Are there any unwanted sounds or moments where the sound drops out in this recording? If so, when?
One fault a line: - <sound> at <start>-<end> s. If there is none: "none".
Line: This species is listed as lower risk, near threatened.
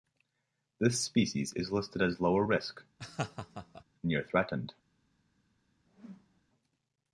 - laugh at 3.0-3.8 s
- whoosh at 5.9-6.4 s